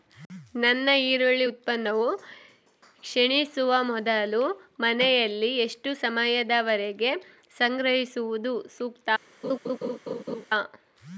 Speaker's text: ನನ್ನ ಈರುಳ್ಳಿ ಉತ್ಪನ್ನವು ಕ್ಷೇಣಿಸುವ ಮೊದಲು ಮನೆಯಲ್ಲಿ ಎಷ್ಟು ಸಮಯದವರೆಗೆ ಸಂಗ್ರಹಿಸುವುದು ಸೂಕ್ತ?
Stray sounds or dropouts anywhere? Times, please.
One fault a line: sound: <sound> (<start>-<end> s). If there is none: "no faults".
sound: laugh (9.4-10.4 s)